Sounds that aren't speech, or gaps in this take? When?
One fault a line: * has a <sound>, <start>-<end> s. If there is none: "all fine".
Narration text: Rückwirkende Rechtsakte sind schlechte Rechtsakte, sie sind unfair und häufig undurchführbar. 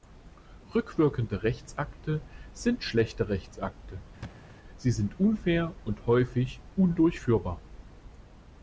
* has a thud, 4.2-4.6 s